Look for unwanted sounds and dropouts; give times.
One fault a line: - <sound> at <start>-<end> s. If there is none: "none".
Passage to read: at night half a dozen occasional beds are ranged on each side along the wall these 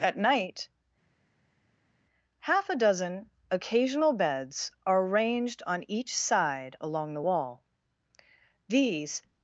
none